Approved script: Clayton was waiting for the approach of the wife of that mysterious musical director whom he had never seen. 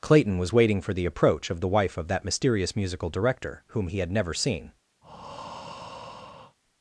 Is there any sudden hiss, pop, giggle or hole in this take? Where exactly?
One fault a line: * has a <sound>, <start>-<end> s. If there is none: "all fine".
* has a breath, 5.0-6.6 s